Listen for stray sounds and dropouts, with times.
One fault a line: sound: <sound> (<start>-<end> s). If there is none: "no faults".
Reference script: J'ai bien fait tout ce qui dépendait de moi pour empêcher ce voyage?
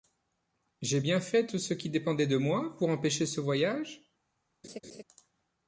sound: laugh (4.6-5.0 s)